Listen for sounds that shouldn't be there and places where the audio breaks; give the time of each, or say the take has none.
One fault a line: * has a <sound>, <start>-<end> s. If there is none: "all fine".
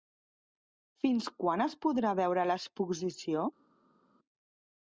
all fine